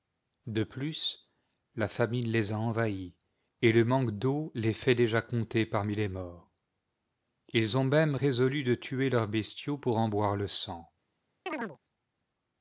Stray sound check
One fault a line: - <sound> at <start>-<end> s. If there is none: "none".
- chirp at 11.5-11.8 s